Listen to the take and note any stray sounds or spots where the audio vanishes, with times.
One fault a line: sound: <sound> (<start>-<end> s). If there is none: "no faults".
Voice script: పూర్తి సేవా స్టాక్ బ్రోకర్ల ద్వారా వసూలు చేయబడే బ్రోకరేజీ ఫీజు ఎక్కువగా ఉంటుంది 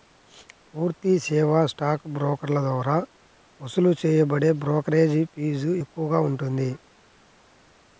no faults